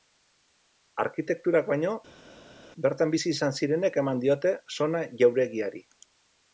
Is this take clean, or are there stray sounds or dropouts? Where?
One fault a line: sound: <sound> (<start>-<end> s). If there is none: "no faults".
no faults